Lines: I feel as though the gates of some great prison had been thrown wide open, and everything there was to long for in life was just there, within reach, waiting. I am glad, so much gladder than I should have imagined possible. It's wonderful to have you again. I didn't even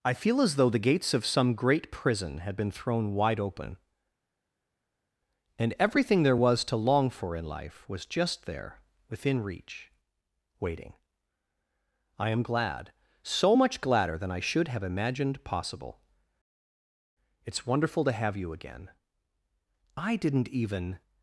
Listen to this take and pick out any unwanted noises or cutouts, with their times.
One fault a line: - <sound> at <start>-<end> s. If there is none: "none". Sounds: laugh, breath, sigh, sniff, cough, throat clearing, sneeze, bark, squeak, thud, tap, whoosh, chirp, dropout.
none